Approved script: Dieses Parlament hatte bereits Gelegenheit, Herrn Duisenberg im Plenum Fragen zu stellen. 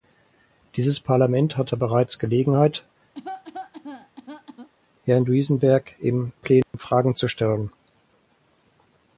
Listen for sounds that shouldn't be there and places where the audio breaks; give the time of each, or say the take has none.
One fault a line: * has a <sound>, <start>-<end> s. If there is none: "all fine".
* has a cough, 3.1-4.7 s
* has a dropout, 6.6-6.7 s